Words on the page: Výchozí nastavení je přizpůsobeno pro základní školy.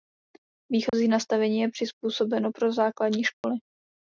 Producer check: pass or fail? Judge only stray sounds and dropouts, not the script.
fail